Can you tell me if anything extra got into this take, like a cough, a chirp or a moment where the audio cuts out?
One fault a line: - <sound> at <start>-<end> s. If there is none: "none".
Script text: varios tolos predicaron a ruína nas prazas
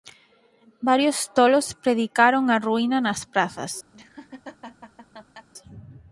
- laugh at 3.9-5.5 s